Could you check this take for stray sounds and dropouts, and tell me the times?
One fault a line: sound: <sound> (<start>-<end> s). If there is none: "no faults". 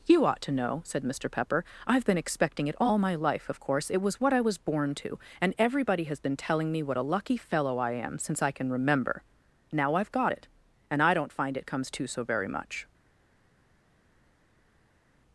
no faults